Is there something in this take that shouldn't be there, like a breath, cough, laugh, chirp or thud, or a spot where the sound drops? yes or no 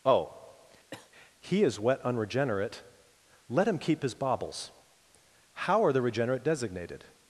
yes